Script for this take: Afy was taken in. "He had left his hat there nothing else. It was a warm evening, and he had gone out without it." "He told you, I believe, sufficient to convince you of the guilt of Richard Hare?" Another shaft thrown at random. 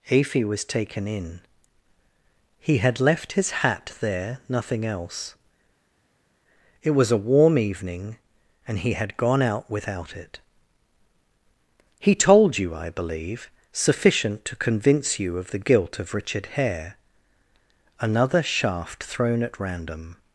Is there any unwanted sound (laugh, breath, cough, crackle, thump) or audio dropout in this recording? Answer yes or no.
no